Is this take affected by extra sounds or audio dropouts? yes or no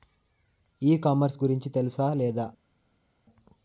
no